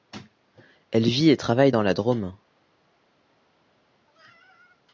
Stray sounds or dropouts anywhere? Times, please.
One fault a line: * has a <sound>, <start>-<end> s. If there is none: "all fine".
all fine